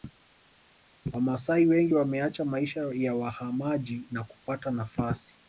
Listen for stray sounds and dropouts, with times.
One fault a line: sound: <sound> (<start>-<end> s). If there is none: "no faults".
no faults